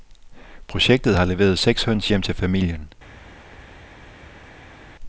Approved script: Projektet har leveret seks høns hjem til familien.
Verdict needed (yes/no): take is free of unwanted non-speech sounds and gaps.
yes